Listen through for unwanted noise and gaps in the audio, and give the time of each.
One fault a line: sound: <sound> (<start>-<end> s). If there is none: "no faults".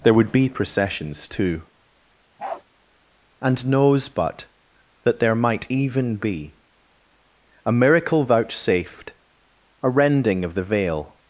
sound: bark (2.4-2.6 s)